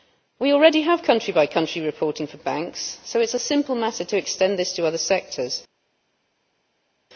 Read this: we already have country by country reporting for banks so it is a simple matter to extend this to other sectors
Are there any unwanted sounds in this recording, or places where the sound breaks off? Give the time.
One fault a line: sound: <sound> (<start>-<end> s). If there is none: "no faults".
no faults